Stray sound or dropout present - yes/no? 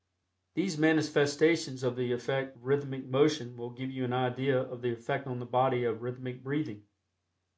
no